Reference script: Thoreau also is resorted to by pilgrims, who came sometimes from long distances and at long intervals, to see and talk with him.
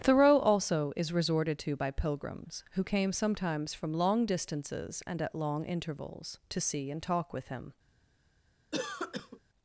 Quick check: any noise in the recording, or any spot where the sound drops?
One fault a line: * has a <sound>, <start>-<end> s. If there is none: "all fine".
* has a cough, 8.7-9.4 s